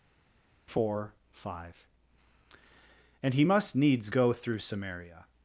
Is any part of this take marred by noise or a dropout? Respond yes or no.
no